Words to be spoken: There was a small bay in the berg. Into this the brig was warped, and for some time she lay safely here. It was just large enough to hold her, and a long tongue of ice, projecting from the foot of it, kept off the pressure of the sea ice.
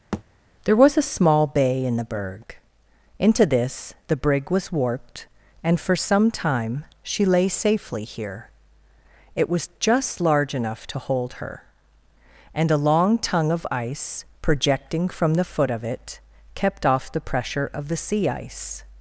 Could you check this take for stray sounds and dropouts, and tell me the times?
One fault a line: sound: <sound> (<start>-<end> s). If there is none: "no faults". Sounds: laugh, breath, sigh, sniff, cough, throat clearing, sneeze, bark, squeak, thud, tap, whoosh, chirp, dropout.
sound: thud (0.1-0.2 s)